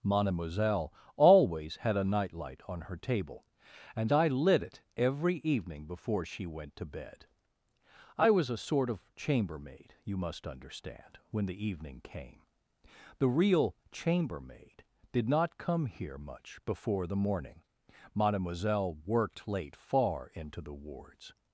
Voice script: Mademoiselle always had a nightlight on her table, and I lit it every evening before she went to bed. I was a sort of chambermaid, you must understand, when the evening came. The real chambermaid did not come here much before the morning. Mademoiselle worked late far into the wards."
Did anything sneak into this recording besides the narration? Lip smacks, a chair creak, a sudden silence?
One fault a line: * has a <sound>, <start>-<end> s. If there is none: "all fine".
all fine